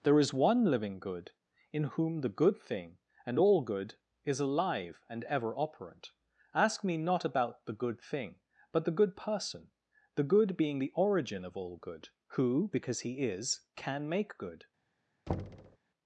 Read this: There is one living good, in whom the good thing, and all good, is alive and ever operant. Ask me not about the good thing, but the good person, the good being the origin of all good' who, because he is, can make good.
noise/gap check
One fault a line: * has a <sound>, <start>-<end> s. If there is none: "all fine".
* has a thud, 15.3-15.8 s